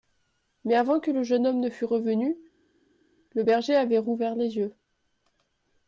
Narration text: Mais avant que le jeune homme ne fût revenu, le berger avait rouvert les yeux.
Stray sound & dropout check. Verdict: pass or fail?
pass